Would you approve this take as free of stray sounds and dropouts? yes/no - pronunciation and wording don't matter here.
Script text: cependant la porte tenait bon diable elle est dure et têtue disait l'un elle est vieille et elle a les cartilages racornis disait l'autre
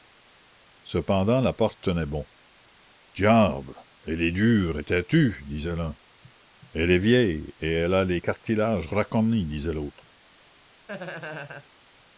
no